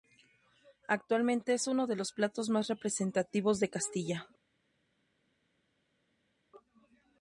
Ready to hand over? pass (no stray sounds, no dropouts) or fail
pass